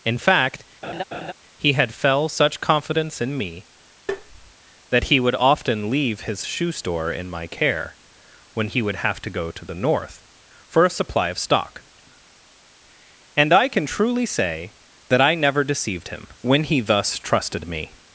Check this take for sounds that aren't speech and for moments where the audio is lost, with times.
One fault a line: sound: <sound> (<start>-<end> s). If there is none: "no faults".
sound: laugh (0.8-1.3 s)
sound: tap (4.1-4.5 s)